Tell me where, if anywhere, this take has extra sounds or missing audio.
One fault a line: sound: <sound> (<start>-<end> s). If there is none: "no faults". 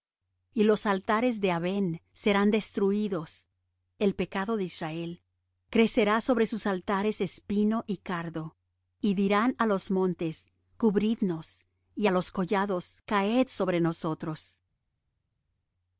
no faults